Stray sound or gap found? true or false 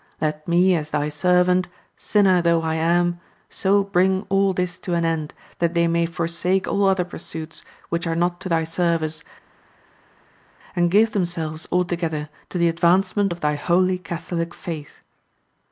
false